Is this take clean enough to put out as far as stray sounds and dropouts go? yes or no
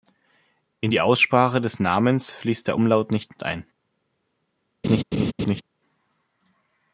no